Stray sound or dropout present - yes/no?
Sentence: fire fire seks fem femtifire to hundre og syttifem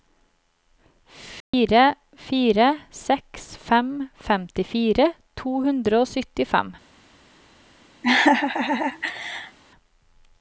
yes